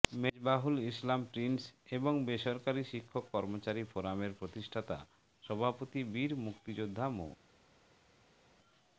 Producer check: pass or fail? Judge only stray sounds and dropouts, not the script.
pass